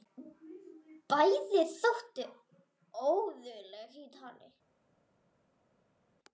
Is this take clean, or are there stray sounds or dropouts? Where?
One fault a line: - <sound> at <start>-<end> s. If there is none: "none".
none